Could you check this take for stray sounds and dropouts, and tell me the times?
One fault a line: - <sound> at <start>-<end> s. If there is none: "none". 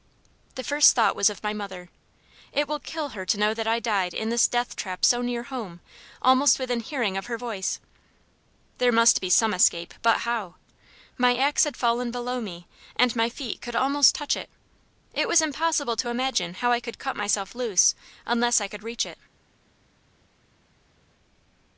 none